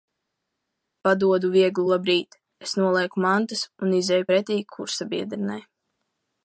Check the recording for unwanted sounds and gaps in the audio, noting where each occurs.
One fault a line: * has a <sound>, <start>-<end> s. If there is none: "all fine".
all fine